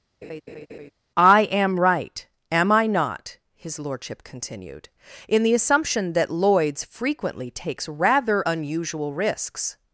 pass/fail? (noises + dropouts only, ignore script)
fail